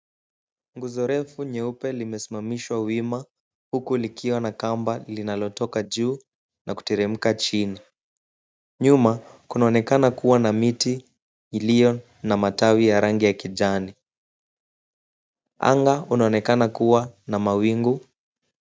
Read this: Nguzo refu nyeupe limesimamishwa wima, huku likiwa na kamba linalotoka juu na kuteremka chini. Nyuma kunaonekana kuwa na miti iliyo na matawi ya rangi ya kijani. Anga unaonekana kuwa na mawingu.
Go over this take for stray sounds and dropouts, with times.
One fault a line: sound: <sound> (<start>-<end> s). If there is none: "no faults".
no faults